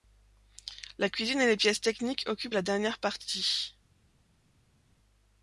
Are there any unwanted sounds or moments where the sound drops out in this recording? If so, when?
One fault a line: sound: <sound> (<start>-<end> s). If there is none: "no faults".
no faults